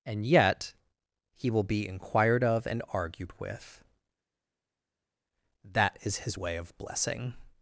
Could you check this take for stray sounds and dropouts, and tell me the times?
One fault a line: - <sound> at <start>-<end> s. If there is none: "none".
none